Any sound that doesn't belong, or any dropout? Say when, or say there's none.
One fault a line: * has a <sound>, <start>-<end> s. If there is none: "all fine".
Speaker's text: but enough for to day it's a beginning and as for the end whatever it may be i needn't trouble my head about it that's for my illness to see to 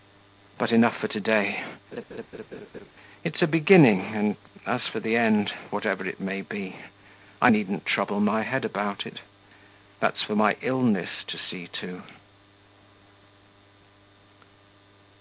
* has a laugh, 1.9-2.9 s